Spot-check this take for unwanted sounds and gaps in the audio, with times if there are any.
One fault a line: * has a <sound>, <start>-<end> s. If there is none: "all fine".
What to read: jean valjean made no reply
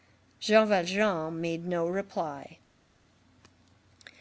all fine